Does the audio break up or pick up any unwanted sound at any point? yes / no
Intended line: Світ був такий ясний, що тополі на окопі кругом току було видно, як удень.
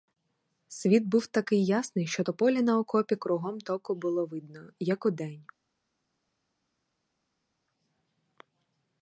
no